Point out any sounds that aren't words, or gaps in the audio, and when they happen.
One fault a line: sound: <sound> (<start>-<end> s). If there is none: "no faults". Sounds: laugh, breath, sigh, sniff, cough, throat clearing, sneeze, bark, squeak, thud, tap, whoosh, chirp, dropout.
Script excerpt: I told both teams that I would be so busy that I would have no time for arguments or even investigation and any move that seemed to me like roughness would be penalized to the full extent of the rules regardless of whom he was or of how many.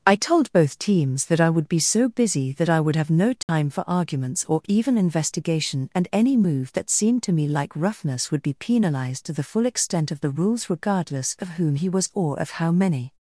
sound: dropout (3.4-3.5 s)